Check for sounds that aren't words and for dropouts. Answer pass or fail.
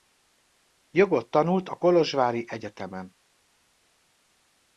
pass